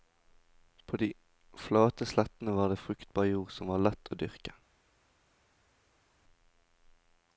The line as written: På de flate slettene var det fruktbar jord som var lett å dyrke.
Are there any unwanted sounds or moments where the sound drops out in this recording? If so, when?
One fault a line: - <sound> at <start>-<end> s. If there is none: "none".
none